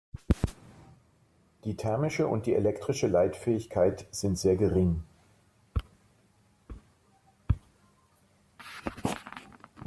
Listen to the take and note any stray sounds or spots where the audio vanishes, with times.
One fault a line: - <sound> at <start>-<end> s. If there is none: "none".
none